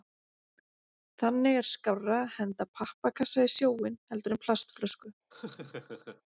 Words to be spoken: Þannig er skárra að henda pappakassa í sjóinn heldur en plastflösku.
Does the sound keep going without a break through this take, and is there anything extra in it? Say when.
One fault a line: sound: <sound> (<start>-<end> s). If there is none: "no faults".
sound: laugh (5.3-6.2 s)